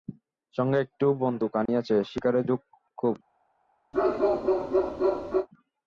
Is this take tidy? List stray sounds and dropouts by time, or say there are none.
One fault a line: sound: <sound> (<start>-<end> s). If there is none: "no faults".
sound: dropout (1.7-1.7 s)
sound: bark (3.9-5.5 s)